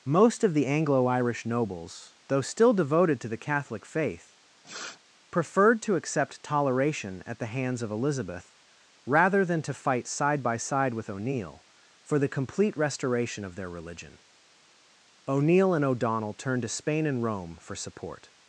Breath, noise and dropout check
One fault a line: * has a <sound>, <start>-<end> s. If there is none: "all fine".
* has a sniff, 4.6-5.0 s